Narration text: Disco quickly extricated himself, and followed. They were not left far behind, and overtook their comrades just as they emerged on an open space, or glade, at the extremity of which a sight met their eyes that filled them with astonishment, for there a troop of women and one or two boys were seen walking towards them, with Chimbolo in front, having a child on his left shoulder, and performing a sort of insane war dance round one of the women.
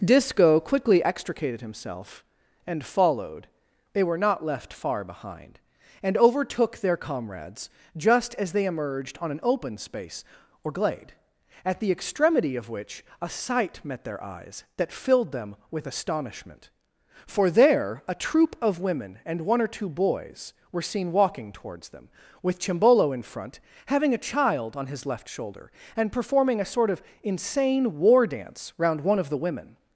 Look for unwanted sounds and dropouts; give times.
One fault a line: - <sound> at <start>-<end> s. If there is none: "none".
none